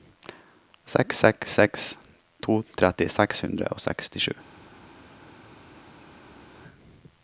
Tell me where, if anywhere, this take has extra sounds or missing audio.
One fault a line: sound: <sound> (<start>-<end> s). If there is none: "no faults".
no faults